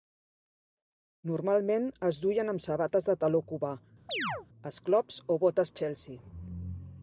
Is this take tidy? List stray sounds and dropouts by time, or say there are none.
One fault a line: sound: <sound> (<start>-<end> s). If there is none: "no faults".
sound: chirp (4.1-4.5 s)